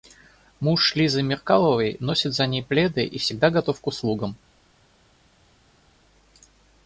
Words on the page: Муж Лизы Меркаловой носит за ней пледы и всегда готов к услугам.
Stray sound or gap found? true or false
false